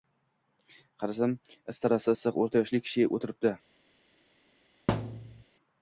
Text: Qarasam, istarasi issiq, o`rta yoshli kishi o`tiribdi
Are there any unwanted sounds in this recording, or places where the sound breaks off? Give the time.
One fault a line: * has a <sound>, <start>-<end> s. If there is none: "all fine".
* has a thud, 4.9-5.4 s